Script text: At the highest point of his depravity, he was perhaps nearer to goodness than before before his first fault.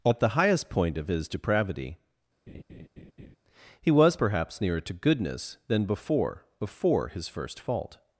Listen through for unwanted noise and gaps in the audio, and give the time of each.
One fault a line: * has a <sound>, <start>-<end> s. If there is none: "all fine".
* has a laugh, 2.5-3.4 s